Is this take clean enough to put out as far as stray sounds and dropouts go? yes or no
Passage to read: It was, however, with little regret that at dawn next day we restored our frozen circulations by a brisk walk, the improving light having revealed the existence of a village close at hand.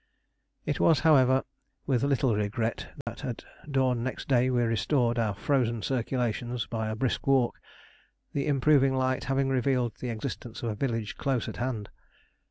no